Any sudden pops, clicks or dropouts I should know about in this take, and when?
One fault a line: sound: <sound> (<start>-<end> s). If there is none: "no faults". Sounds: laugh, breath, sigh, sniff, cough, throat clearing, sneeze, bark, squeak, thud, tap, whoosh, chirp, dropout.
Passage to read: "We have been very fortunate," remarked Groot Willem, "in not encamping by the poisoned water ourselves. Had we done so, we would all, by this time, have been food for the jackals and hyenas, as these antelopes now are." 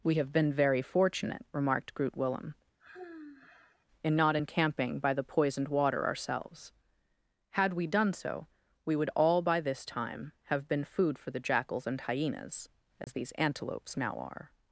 sound: sigh (2.8-3.9 s)
sound: dropout (13.0-13.1 s)